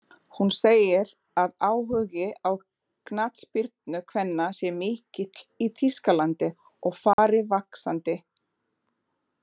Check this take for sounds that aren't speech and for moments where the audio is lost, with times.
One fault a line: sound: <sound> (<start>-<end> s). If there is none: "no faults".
sound: dropout (7.1-7.2 s)